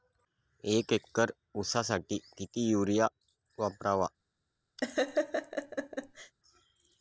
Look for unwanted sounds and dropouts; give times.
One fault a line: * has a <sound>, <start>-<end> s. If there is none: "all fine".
* has a laugh, 4.8-6.3 s